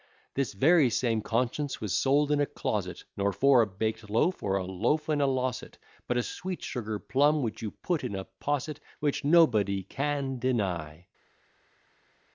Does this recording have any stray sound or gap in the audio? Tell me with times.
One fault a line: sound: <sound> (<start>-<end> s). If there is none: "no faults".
no faults